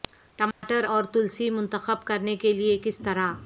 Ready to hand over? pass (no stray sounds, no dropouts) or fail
fail